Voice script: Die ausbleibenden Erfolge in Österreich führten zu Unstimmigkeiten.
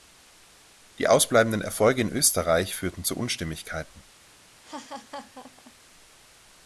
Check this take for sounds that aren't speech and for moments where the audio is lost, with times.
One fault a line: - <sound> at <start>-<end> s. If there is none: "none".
- laugh at 4.6-5.7 s